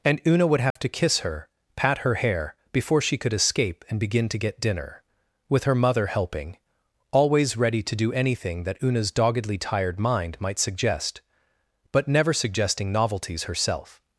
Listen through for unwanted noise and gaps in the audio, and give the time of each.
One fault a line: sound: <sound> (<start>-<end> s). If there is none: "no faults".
sound: dropout (0.7-0.8 s)